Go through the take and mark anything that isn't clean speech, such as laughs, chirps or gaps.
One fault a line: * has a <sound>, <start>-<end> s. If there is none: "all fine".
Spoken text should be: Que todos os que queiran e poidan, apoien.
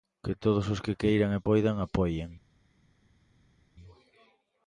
all fine